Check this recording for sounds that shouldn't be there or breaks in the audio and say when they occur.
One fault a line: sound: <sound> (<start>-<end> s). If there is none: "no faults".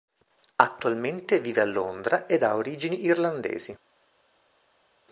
no faults